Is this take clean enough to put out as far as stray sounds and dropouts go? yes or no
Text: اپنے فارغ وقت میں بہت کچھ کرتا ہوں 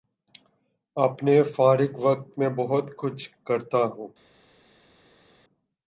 yes